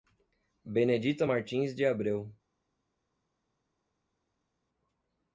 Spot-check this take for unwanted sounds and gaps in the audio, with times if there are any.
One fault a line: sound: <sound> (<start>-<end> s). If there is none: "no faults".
no faults